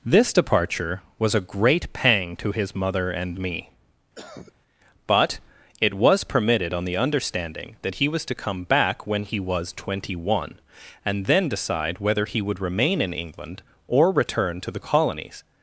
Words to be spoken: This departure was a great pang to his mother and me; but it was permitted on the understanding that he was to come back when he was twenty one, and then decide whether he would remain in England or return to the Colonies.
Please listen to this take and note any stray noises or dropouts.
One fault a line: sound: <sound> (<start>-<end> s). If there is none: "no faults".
sound: cough (4.1-4.5 s)